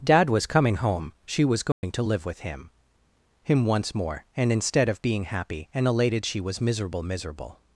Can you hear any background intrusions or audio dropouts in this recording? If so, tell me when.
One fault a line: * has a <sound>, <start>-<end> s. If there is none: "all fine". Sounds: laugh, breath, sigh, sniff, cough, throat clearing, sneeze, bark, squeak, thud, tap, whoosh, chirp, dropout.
* has a dropout, 1.7-1.8 s